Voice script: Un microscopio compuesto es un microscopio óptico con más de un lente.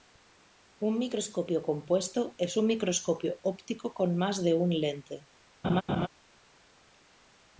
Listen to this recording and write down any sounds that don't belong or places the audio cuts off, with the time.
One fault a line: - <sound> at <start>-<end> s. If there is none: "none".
- laugh at 5.6-6.1 s